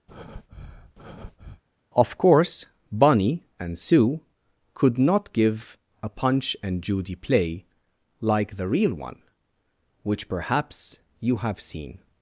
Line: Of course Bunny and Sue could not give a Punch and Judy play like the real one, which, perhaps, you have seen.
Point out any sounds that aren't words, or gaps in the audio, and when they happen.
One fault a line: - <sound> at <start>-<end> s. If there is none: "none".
- breath at 0.1-1.6 s